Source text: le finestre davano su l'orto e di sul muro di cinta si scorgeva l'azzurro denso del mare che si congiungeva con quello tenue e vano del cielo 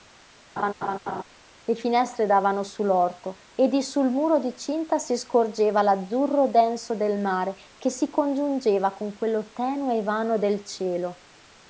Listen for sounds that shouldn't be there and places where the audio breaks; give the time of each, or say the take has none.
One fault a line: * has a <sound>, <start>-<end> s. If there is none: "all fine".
* has a laugh, 0.6-1.2 s